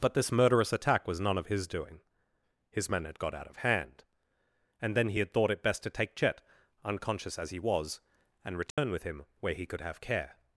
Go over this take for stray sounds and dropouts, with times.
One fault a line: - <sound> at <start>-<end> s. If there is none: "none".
- dropout at 8.7-8.8 s